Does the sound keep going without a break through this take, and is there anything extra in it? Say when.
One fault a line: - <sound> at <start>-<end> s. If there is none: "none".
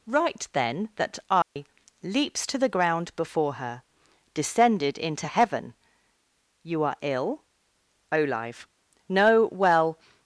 - dropout at 1.4-1.6 s